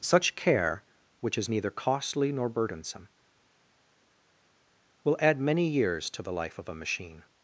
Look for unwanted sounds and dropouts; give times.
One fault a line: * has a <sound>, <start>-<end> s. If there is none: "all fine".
all fine